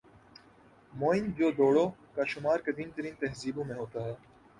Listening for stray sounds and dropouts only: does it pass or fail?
pass